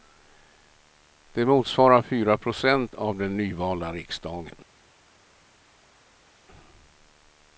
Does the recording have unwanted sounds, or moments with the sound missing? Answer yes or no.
no